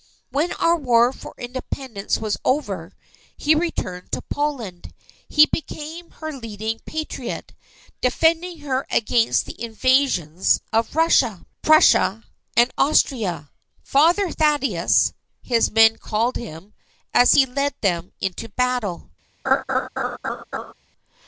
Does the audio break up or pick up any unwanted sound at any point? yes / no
yes